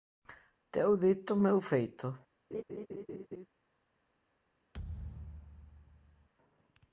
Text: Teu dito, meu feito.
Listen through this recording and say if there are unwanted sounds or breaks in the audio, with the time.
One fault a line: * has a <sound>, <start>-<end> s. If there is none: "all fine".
* has a laugh, 2.5-3.5 s
* has a thud, 4.7-6.3 s